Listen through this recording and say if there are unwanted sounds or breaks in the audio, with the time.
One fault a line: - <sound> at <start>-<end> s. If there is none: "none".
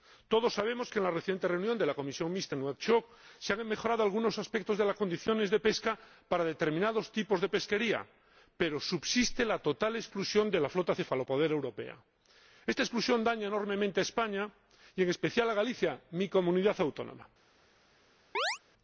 - chirp at 18.3-18.6 s